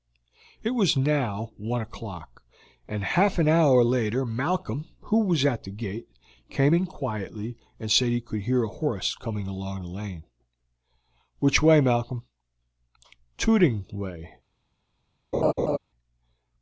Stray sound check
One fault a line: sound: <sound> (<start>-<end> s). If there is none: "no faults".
sound: laugh (15.3-15.8 s)